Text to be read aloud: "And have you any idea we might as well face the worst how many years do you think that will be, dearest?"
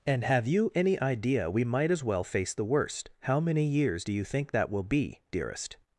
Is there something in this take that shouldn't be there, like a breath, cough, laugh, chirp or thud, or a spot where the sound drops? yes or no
no